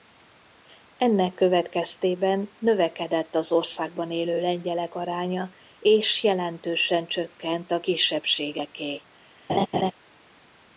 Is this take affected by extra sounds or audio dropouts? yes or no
yes